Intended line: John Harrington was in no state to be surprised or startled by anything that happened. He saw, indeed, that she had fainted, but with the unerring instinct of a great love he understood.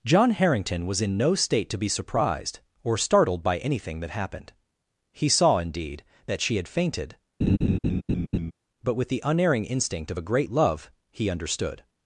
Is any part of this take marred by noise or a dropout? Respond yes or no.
yes